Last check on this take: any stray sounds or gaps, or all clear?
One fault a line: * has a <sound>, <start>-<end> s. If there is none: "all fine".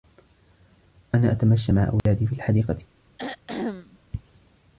* has a dropout, 2.0-2.1 s
* has a throat clearing, 3.2-4.0 s